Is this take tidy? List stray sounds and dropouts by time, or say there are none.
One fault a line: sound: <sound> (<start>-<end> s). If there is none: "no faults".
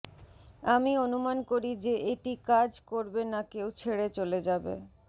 no faults